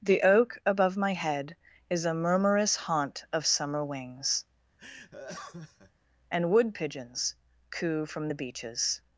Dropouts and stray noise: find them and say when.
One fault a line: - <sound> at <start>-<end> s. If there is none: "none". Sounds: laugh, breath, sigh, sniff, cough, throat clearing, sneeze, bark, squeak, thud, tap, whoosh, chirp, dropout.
- laugh at 4.8-5.9 s